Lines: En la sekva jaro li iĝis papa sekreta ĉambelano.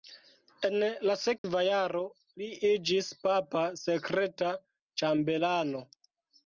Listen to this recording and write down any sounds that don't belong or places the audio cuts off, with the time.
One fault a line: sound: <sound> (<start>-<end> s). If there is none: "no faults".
sound: dropout (1.4-1.4 s)